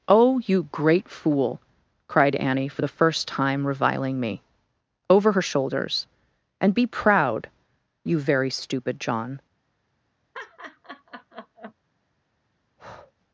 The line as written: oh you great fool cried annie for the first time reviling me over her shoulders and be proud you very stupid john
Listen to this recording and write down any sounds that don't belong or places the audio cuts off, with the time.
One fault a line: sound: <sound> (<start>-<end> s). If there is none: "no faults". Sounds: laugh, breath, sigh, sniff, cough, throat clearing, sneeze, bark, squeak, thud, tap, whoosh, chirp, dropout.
sound: laugh (10.3-11.7 s)
sound: breath (12.8-13.1 s)